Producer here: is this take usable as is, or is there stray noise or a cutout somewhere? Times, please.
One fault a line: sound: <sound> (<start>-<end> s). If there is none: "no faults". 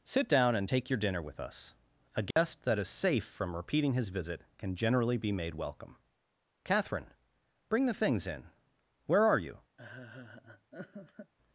sound: dropout (2.3-2.4 s)
sound: laugh (9.8-11.3 s)